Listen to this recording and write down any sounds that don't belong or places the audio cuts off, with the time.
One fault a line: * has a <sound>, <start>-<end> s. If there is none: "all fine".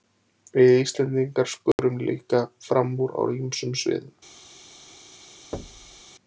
* has a dropout, 1.7-1.8 s
* has a thud, 5.5-6.0 s